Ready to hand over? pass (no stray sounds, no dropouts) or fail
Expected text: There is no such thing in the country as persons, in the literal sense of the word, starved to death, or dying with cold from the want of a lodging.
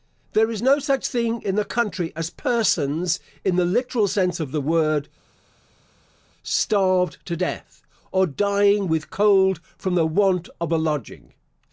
pass